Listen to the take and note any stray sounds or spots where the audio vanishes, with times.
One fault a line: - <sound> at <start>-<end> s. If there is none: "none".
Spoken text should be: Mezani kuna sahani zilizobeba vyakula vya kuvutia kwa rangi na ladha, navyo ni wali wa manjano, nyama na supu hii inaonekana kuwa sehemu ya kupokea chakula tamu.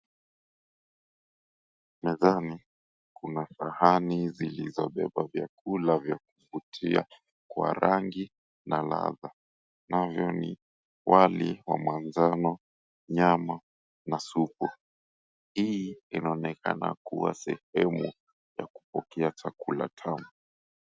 none